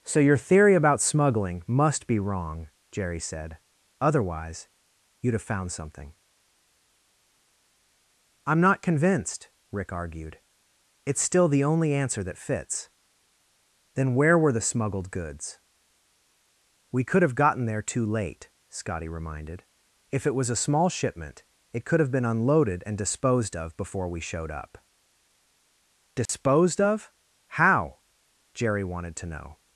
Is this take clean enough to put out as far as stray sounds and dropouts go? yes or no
no